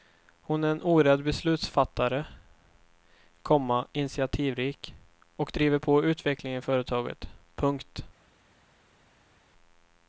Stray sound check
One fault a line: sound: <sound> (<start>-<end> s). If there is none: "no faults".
no faults